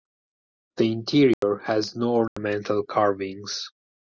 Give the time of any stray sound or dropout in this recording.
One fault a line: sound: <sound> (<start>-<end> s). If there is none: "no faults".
sound: dropout (1.3-1.4 s)
sound: dropout (2.3-2.4 s)